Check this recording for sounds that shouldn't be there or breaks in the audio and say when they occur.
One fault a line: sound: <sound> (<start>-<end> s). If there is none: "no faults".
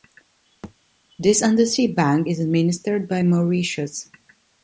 sound: thud (0.6-0.7 s)